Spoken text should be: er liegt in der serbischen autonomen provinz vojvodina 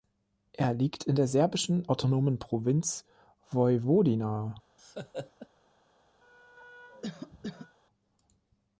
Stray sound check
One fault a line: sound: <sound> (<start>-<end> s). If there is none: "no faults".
sound: laugh (4.8-5.5 s)
sound: cough (6.2-7.8 s)